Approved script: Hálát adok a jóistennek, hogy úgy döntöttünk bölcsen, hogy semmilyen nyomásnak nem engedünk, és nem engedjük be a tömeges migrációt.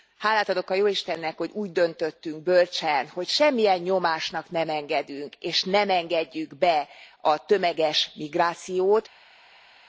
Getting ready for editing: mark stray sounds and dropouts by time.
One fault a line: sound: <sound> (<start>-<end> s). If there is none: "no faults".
no faults